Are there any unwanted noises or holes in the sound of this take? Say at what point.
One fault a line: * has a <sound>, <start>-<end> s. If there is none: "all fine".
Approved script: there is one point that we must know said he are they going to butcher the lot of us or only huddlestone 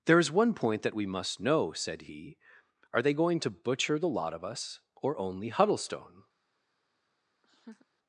* has a laugh, 7.4-7.9 s